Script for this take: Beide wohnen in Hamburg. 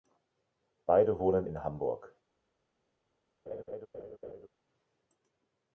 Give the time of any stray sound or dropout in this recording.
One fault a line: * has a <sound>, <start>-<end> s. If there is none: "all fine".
* has a laugh, 3.5-4.5 s